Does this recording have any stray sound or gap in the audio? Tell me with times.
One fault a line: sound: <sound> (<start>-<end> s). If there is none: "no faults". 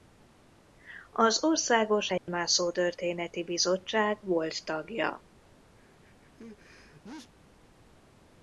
sound: dropout (2.2-2.3 s)
sound: sneeze (5.7-7.3 s)